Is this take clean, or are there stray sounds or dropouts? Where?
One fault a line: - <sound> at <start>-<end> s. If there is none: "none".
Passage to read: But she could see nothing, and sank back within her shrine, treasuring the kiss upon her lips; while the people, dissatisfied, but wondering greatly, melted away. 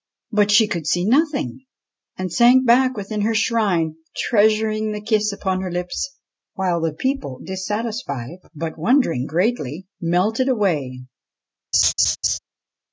- laugh at 11.7-12.4 s